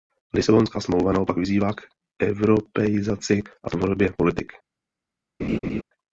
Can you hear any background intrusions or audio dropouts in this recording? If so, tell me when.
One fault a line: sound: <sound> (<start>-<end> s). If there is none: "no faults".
sound: laugh (5.4-5.8 s)